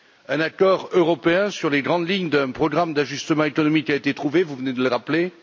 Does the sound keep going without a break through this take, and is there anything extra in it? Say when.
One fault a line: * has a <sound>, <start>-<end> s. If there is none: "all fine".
all fine